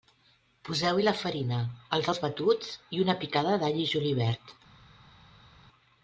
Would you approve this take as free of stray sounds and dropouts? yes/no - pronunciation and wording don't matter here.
yes